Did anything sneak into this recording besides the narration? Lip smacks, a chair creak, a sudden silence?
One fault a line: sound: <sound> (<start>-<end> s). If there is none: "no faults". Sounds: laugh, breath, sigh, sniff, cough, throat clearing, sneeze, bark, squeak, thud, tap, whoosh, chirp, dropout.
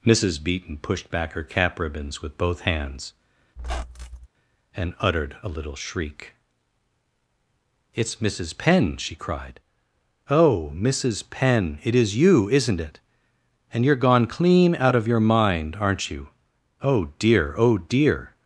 sound: squeak (3.6-4.3 s)